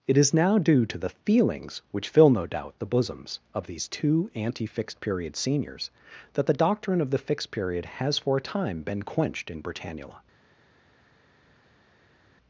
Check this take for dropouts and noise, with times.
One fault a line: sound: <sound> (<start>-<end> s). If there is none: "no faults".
no faults